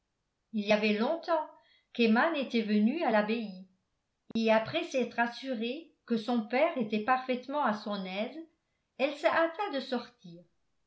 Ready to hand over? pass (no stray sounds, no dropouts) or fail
fail